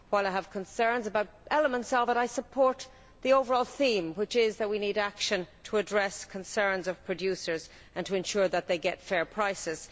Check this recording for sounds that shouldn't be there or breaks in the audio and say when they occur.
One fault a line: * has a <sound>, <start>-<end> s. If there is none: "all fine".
all fine